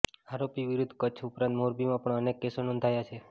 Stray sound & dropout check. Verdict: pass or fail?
pass